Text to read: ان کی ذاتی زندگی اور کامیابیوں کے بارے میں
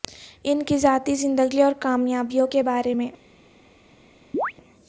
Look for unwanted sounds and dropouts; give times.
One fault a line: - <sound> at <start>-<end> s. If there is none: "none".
- chirp at 4.3-4.5 s